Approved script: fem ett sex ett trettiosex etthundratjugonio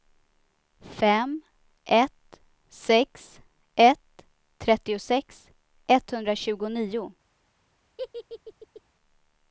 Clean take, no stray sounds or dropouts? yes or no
no